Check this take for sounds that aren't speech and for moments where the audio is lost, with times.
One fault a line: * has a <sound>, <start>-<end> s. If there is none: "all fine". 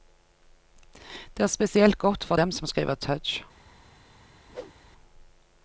* has a whoosh, 4.5-4.7 s